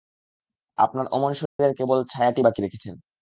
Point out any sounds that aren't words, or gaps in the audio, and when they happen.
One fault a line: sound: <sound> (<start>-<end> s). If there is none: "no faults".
sound: dropout (1.5-1.6 s)